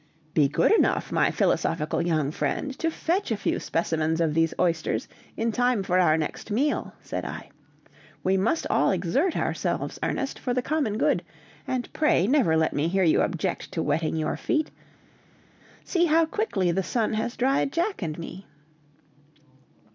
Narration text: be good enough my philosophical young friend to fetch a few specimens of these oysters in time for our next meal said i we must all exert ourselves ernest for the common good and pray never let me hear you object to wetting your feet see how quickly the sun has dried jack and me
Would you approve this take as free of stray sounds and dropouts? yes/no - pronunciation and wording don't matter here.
yes